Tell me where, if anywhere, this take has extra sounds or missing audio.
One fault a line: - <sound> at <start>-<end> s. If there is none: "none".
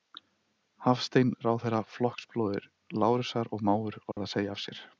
- dropout at 4.1-4.2 s